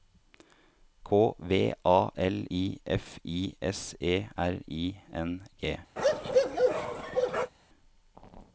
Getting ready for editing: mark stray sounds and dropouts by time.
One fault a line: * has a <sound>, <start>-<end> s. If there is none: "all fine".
* has a bark, 6.0-7.5 s